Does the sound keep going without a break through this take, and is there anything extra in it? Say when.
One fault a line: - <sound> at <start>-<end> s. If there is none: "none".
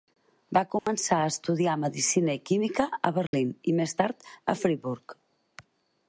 - dropout at 0.8-0.9 s
- dropout at 3.3-3.3 s